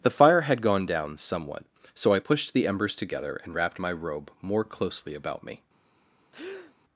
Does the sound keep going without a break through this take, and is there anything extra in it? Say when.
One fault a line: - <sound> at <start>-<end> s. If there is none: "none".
- breath at 6.3-6.7 s